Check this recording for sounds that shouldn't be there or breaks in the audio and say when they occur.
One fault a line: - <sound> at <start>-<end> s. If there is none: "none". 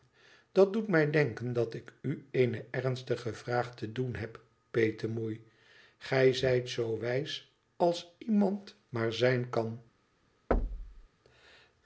- thud at 10.5-11.1 s